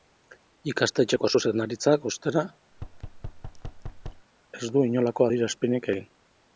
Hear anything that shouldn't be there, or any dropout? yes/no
yes